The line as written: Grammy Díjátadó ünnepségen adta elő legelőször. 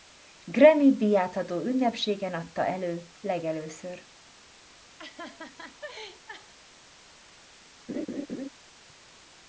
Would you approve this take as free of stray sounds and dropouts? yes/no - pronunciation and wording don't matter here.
no